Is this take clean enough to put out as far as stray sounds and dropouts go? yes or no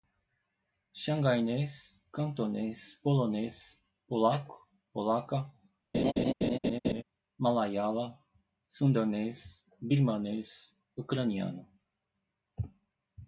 no